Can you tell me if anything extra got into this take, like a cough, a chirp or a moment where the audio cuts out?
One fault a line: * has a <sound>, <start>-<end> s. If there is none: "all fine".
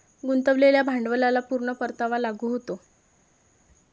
all fine